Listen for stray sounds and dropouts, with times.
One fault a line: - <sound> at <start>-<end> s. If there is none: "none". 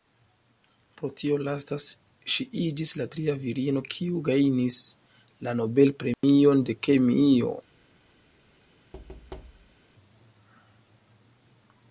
- dropout at 6.1-6.2 s
- thud at 8.9-9.8 s